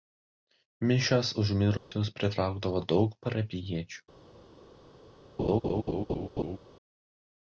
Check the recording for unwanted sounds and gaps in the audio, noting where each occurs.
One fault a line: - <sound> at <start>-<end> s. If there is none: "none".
- dropout at 1.8-1.9 s
- laugh at 5.4-6.6 s